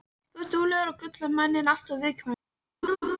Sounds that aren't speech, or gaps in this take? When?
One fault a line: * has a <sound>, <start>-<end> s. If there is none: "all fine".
* has a laugh, 2.8-3.2 s